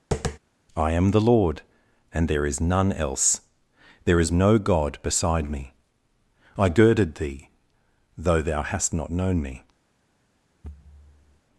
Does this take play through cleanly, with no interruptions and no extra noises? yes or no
no